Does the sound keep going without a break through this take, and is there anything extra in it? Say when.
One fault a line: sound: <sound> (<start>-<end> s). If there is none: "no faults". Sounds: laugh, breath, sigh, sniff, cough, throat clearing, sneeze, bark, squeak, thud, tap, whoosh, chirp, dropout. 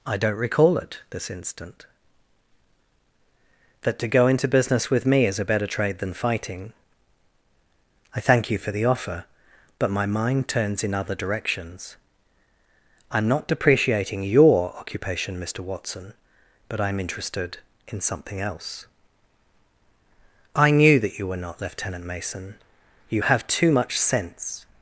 no faults